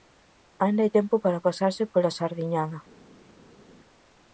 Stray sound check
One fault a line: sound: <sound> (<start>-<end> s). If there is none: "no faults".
no faults